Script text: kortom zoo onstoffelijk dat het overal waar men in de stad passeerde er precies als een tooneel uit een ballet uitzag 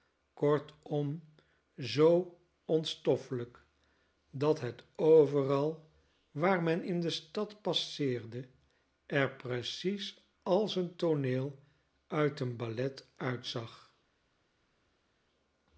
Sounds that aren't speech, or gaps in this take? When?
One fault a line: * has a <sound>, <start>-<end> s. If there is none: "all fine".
all fine